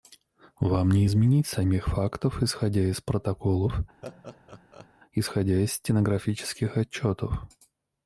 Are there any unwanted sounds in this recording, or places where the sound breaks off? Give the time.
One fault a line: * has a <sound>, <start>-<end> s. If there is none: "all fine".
* has a laugh, 4.0-4.9 s